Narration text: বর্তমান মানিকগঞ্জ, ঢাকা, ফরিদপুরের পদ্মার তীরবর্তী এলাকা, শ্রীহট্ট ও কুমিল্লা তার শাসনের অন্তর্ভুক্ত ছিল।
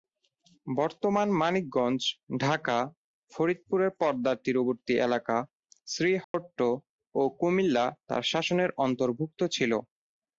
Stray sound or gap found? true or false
true